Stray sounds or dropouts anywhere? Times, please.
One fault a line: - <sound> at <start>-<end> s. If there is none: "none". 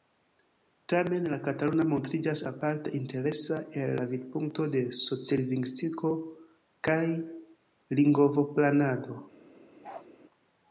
- bark at 9.8-10.1 s